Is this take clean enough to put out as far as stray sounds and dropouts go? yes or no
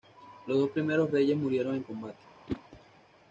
no